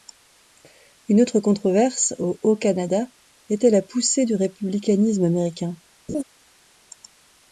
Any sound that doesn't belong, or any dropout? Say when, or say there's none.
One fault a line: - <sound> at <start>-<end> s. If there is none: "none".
- laugh at 6.1-6.2 s